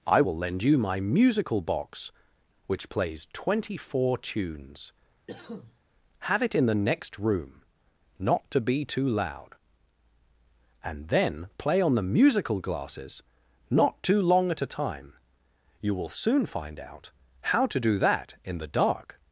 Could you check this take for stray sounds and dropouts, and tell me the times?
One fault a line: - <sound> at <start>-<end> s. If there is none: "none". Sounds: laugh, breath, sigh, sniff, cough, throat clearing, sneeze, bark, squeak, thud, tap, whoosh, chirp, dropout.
- cough at 5.3-5.8 s